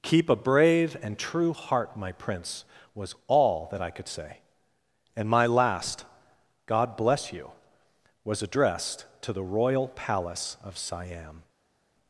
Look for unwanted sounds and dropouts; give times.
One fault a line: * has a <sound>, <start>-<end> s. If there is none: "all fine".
all fine